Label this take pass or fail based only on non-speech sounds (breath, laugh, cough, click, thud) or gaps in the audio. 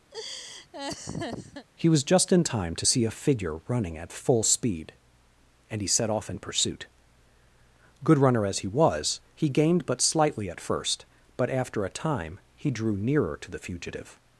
fail